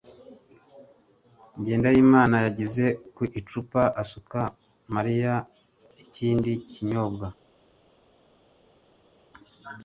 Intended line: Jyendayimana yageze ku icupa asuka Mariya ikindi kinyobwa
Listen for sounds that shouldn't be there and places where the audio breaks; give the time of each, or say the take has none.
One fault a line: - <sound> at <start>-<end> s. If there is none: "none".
none